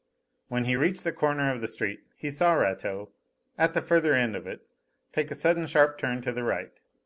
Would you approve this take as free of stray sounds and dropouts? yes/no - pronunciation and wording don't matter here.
yes